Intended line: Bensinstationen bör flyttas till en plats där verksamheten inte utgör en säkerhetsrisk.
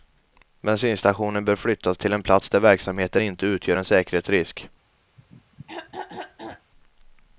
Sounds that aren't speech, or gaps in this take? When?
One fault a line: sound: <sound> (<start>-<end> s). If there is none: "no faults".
sound: throat clearing (5.2-6.7 s)